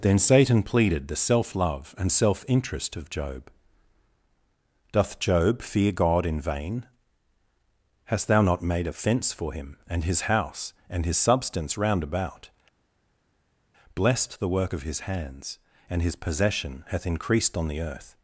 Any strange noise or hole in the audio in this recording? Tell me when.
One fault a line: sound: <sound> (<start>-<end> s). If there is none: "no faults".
no faults